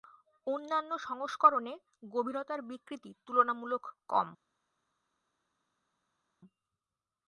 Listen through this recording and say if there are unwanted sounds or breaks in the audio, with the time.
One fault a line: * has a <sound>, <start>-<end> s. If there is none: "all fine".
all fine